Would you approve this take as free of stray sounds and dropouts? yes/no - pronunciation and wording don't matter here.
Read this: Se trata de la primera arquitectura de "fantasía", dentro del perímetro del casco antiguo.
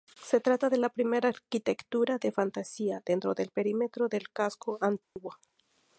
no